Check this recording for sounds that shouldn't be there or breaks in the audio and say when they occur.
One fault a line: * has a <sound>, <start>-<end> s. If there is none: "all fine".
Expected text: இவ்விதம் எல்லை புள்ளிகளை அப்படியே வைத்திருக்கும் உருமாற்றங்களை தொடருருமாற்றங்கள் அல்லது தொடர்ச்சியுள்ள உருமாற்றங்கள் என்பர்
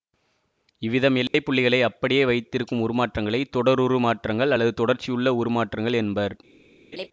* has a dropout, 1.3-1.3 s
* has a laugh, 6.9-7.1 s